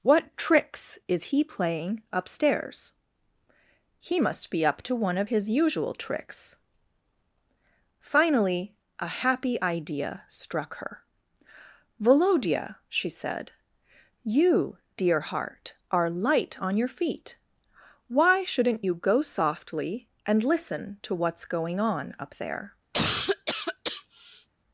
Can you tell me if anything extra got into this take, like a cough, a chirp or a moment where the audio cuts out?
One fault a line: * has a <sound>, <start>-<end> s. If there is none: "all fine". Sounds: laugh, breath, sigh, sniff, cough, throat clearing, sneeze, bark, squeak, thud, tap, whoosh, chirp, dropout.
* has a cough, 22.9-24.5 s